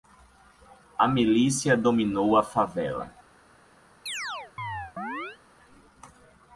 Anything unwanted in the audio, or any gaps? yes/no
yes